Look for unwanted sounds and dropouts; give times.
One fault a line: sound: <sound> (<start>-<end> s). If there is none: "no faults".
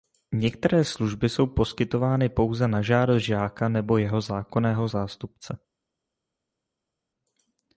no faults